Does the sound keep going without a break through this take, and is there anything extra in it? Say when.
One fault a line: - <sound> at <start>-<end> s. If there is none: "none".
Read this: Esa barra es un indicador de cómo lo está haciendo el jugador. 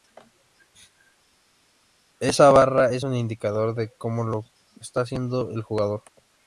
none